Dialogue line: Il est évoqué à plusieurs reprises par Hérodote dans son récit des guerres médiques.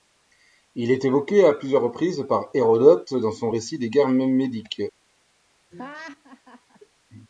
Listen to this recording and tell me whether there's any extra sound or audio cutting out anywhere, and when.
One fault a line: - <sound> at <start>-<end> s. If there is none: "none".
- laugh at 5.7-6.8 s